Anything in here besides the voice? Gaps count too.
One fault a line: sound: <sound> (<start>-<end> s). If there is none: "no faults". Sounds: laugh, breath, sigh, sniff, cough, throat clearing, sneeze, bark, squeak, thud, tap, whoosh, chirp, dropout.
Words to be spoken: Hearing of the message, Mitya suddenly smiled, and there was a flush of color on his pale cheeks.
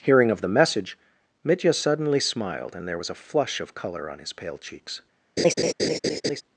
sound: laugh (5.4-6.4 s)